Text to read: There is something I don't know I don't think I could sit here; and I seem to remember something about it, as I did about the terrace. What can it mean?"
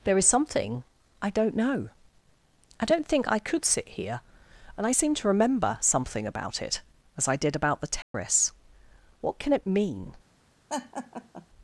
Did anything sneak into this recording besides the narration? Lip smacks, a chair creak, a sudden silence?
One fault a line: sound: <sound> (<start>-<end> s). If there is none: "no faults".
sound: dropout (8.0-8.1 s)
sound: laugh (10.7-11.5 s)